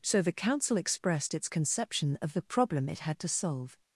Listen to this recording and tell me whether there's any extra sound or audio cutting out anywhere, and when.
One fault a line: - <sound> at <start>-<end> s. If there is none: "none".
none